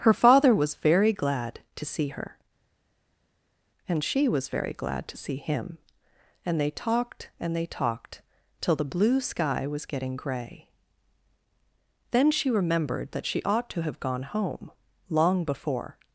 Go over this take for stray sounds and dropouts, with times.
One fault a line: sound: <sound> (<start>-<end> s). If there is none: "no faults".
no faults